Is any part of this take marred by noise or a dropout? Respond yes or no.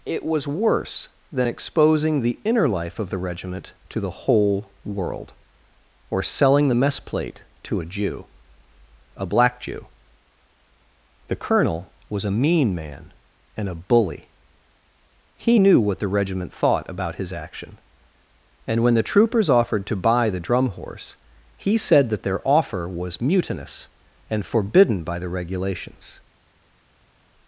no